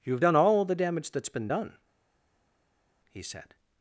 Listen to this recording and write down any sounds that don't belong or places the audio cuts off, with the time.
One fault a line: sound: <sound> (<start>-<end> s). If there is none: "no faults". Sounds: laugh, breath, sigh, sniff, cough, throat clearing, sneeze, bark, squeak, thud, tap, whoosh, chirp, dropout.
no faults